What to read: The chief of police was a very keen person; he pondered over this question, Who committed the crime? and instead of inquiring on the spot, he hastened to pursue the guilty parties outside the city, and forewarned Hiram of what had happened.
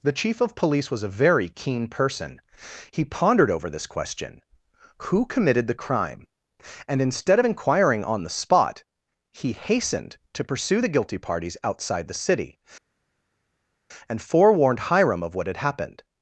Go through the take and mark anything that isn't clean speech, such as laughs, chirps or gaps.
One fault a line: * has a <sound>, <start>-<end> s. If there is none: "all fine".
all fine